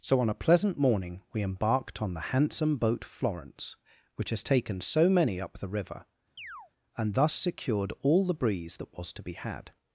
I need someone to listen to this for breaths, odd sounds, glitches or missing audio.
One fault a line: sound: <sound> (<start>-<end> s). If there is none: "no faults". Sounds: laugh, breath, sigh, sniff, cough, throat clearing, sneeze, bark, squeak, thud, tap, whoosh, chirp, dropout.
sound: chirp (6.4-6.7 s)